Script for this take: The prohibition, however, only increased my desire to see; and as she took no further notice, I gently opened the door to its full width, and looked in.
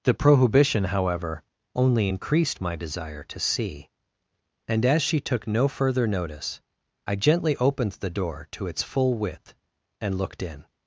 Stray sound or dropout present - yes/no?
no